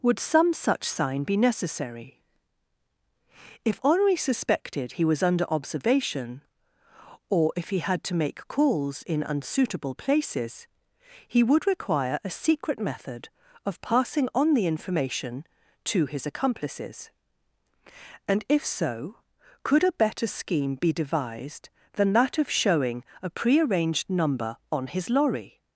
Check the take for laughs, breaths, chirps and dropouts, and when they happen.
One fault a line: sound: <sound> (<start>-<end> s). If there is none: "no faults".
no faults